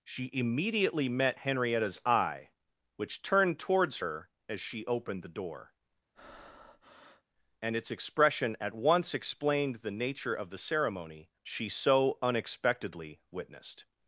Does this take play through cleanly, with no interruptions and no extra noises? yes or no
no